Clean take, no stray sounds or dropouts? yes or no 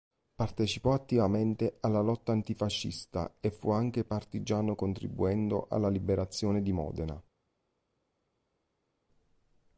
yes